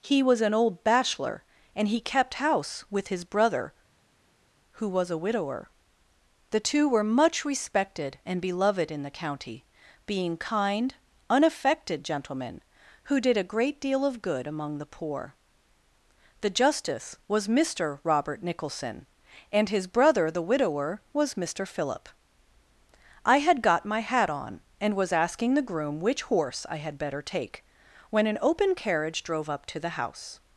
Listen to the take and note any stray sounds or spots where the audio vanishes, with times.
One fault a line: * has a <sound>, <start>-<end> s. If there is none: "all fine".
all fine